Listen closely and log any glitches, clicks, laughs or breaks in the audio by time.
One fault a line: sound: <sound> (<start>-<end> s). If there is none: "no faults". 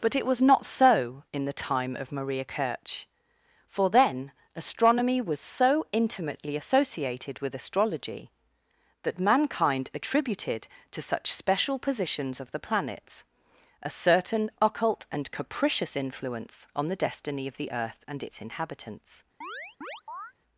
sound: chirp (19.4-20.3 s)